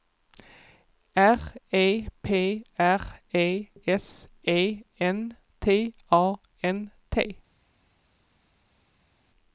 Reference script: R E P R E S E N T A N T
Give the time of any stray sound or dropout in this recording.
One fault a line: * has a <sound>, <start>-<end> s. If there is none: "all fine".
all fine